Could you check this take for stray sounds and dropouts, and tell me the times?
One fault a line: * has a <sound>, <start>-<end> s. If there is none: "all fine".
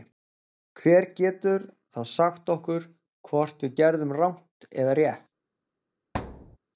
* has a thud, 6.1-6.6 s